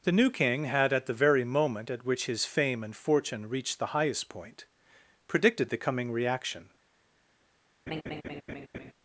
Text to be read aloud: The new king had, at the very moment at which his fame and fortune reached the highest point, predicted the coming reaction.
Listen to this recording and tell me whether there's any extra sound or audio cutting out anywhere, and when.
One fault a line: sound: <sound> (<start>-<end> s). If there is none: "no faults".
sound: laugh (7.9-8.9 s)